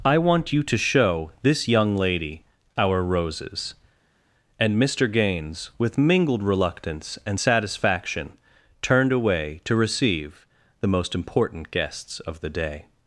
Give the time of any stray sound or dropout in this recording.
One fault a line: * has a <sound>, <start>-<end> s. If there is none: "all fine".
all fine